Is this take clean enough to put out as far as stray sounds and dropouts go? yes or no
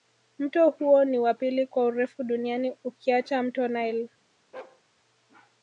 no